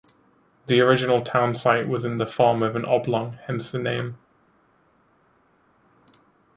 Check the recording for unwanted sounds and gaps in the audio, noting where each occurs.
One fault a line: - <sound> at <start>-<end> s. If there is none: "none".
none